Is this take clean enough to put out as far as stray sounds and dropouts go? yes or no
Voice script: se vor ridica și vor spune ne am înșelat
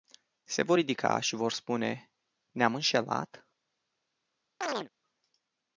no